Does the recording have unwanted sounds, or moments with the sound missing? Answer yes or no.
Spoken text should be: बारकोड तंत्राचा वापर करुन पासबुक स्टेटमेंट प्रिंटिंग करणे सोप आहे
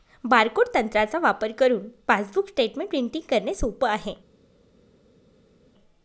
no